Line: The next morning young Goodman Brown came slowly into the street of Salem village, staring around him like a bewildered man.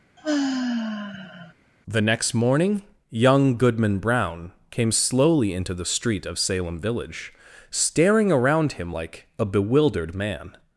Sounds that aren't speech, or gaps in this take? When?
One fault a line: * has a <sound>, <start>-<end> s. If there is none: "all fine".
* has a sigh, 0.2-1.5 s